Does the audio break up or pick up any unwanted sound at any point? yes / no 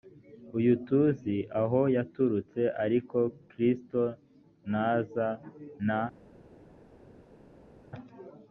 no